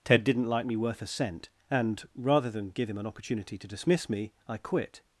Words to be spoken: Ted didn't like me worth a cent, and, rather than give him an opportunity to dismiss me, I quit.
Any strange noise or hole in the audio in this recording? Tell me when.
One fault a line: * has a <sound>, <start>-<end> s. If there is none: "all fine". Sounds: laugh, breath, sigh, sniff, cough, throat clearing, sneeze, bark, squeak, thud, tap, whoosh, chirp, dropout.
all fine